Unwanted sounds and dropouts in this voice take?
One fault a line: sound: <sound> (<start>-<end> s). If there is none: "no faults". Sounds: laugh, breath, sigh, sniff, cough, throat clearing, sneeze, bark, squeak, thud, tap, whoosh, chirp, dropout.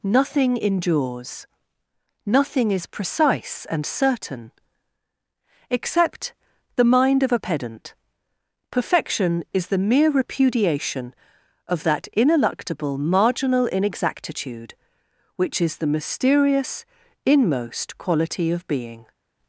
no faults